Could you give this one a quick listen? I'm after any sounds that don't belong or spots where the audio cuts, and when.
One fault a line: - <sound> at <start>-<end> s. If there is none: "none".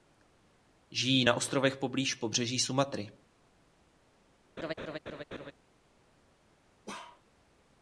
- laugh at 4.6-5.5 s
- bark at 6.9-7.2 s